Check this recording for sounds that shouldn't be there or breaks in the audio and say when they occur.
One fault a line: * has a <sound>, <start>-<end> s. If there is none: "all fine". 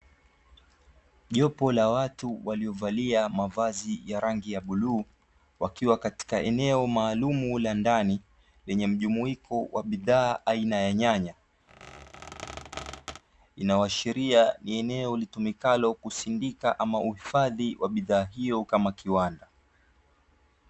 * has a squeak, 11.7-13.2 s